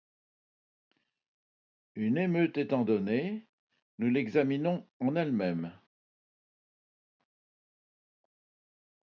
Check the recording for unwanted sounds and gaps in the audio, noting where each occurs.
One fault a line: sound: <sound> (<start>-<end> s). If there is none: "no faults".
no faults